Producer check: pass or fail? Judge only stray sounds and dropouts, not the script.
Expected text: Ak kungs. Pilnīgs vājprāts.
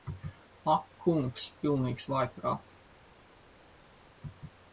pass